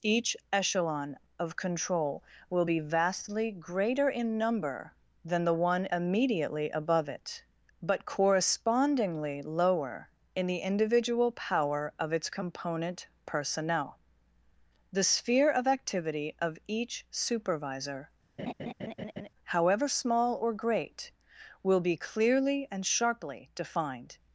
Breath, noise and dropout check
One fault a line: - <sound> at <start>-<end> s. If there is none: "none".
- laugh at 18.4-19.3 s